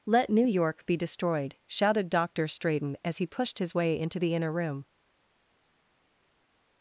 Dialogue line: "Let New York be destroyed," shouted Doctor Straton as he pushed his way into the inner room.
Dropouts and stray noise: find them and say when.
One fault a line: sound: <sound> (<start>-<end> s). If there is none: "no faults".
no faults